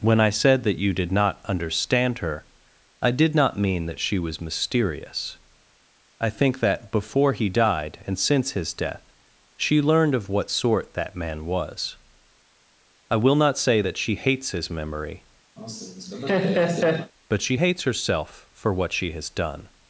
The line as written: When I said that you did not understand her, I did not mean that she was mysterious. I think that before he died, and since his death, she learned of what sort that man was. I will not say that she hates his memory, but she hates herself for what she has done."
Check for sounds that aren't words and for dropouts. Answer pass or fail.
fail